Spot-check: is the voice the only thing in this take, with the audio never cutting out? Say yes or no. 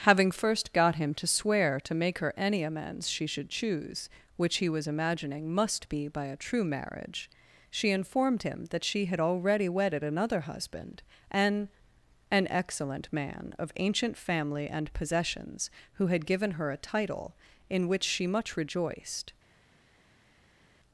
yes